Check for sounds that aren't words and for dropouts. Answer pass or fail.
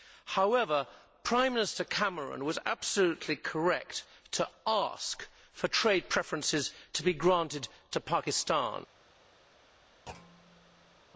fail